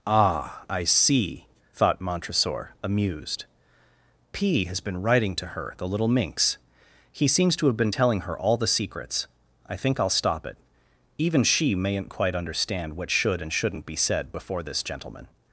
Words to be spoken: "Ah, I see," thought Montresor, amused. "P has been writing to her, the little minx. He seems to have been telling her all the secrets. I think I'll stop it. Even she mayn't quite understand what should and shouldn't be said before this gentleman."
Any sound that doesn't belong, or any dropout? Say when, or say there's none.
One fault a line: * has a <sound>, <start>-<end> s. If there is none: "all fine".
all fine